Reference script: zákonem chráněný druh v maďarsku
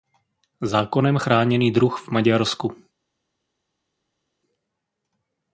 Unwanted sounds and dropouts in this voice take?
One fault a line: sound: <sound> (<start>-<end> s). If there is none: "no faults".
no faults